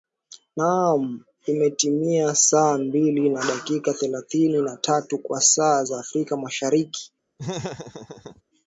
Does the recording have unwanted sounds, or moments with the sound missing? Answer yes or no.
yes